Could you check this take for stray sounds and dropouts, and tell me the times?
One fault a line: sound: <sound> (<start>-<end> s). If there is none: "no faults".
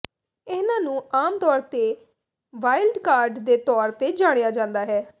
no faults